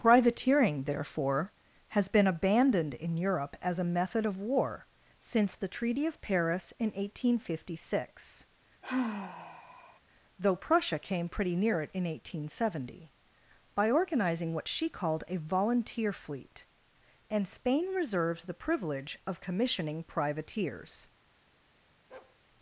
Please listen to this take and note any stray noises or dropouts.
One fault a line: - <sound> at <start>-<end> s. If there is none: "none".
- sigh at 8.8-10.0 s
- bark at 22.1-22.4 s